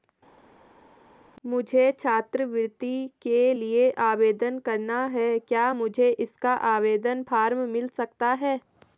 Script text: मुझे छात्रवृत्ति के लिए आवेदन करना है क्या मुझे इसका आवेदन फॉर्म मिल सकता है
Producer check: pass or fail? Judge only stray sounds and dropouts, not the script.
pass